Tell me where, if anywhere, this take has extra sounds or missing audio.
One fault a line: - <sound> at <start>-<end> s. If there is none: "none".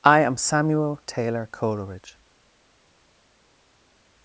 none